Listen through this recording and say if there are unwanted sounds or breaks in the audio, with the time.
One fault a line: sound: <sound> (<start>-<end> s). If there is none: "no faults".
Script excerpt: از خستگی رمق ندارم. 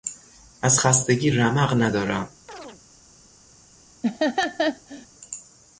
sound: chirp (2.5-2.8 s)
sound: laugh (4.0-5.1 s)